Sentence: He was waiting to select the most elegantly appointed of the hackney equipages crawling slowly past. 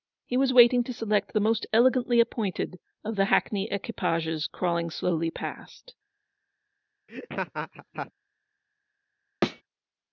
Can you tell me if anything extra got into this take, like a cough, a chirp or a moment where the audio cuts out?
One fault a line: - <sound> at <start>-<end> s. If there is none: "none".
- laugh at 7.1-8.1 s
- thud at 9.4-9.6 s